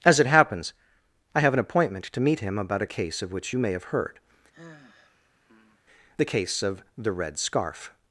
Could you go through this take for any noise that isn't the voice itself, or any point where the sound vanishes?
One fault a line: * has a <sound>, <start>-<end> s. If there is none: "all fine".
* has a sigh, 4.5-5.8 s